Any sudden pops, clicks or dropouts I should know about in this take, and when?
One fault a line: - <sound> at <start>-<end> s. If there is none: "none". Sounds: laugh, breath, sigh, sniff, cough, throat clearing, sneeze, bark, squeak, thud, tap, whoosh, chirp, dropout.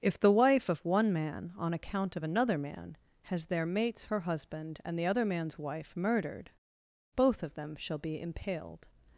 none